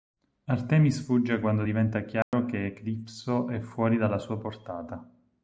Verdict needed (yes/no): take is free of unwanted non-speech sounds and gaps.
no